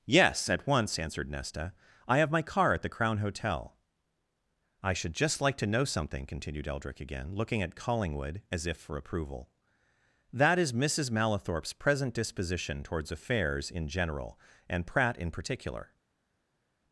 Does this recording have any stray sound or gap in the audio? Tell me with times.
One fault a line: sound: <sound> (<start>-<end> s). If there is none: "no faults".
no faults